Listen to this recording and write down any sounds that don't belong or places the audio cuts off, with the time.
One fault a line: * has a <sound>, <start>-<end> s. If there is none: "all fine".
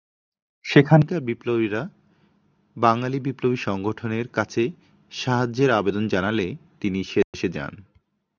* has a dropout, 7.2-7.3 s